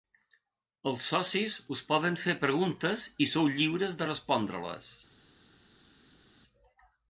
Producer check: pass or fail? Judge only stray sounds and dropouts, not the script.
pass